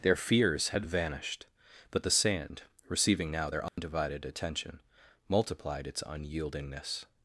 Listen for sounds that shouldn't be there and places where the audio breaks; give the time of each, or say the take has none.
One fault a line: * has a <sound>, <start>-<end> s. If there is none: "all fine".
* has a dropout, 3.7-3.8 s